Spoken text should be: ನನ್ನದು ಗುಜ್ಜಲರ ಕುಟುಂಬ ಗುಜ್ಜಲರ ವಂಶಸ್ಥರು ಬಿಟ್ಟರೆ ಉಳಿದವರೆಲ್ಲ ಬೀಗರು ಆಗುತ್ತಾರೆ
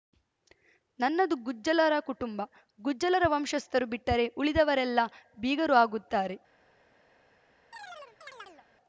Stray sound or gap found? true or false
true